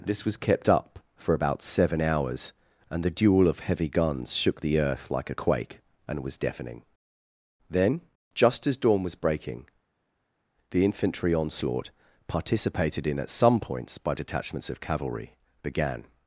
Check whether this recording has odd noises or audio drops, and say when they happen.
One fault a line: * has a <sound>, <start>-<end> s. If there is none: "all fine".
all fine